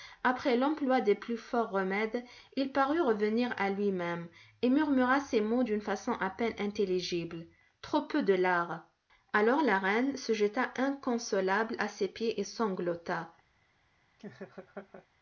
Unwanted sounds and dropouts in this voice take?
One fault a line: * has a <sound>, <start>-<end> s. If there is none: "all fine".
* has a laugh, 14.2-15.1 s